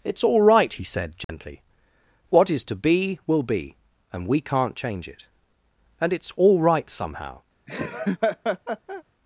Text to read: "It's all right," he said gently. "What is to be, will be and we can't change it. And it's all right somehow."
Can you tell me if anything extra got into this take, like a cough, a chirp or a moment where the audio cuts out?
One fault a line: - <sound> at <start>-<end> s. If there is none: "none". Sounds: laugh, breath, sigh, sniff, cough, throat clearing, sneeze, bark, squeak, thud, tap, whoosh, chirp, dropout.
- dropout at 1.2-1.3 s
- laugh at 7.7-9.0 s